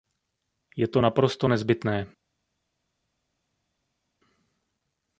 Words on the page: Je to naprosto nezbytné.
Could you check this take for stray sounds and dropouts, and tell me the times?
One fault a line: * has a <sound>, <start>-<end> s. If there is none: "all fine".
all fine